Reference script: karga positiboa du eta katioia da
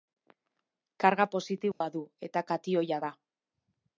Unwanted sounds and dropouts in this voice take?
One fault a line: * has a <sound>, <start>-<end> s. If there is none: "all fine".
* has a dropout, 1.7-1.8 s